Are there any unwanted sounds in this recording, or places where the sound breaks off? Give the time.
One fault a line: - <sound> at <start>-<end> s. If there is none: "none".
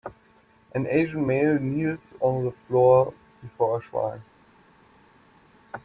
none